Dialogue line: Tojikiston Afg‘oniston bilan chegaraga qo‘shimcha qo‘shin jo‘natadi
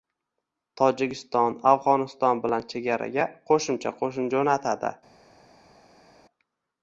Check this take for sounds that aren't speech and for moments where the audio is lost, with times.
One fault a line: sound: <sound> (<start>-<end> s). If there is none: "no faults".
no faults